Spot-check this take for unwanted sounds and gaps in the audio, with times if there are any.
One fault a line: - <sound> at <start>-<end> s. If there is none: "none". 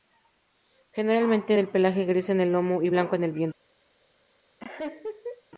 - laugh at 4.6-5.4 s